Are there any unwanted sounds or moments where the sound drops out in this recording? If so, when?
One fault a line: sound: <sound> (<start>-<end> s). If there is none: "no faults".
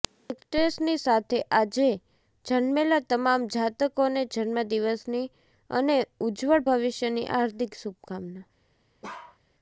sound: bark (9.0-9.4 s)